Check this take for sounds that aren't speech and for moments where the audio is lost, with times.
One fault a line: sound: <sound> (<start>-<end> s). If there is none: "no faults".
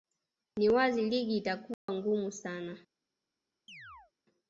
sound: dropout (1.7-1.9 s)
sound: chirp (3.7-4.1 s)